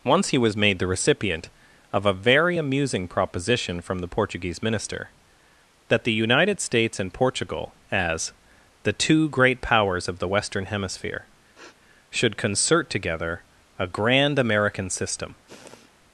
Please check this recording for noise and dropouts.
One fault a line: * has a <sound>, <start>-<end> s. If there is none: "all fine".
* has a sniff, 11.5-11.8 s
* has a sniff, 15.5-15.9 s